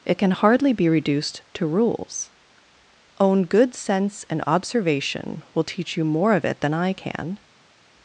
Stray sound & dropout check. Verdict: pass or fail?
pass